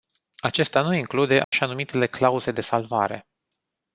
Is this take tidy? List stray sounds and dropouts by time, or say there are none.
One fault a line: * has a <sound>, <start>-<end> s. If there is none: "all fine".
* has a dropout, 1.4-1.5 s